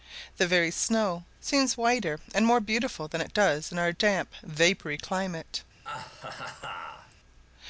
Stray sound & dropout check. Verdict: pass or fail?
fail